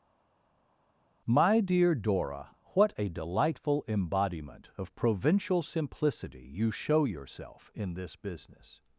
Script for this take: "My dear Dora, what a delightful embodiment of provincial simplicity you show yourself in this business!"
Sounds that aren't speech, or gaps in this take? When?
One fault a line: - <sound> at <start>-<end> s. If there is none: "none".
none